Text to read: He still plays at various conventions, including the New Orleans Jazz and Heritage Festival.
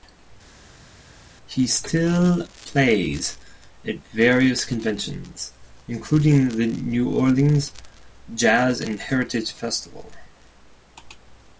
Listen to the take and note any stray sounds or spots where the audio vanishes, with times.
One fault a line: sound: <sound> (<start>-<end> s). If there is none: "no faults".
no faults